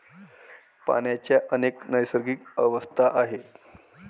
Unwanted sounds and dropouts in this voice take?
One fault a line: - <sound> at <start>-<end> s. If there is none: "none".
none